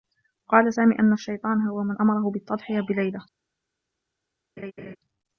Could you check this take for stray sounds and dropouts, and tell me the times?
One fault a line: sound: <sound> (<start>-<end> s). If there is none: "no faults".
sound: laugh (4.6-5.0 s)